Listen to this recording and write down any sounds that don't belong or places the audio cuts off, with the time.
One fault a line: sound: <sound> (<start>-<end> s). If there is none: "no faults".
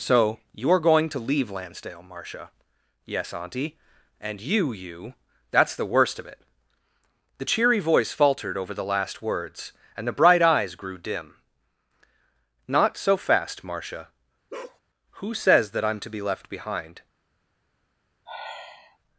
sound: bark (14.5-14.8 s)
sound: sigh (18.3-19.0 s)